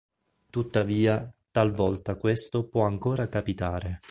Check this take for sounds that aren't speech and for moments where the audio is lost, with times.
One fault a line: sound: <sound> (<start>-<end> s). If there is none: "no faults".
no faults